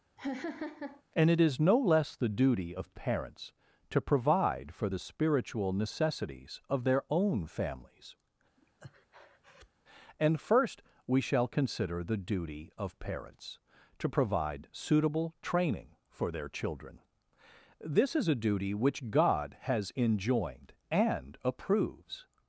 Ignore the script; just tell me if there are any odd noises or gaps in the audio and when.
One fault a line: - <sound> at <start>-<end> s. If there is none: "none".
- laugh at 0.2-1.0 s
- breath at 8.6-9.7 s